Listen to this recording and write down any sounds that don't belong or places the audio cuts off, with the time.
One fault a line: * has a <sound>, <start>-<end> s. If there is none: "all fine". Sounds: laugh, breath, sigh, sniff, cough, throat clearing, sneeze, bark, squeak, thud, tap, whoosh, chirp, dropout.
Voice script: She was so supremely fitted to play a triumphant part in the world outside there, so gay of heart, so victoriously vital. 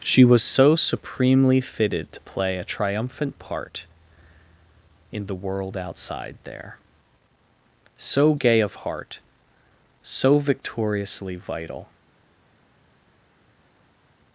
all fine